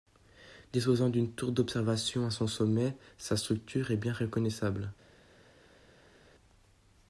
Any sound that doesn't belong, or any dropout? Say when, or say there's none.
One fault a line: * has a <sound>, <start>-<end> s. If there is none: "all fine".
all fine